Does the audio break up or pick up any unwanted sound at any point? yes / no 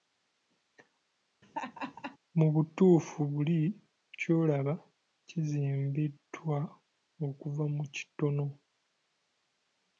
yes